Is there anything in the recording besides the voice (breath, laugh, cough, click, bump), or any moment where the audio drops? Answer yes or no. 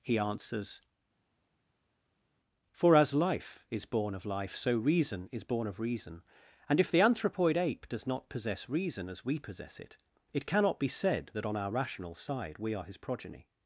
no